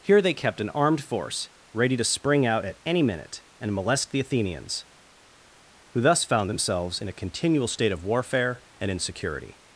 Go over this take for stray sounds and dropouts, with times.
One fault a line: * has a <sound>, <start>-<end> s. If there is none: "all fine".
all fine